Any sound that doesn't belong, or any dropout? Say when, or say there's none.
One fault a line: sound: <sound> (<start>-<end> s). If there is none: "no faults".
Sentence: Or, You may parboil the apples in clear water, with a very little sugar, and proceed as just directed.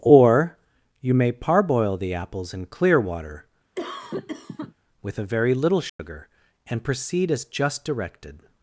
sound: cough (3.8-4.7 s)
sound: dropout (5.9-6.0 s)